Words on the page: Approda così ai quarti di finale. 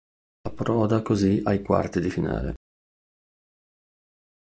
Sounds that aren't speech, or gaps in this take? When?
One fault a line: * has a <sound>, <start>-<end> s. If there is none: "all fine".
all fine